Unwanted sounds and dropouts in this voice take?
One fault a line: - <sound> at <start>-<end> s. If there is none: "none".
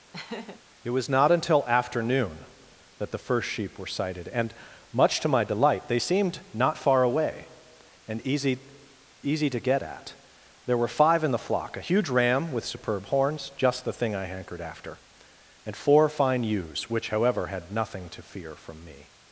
- laugh at 0.1-0.6 s